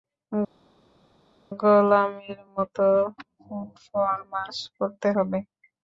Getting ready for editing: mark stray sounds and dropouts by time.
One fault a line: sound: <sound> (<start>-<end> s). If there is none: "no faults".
no faults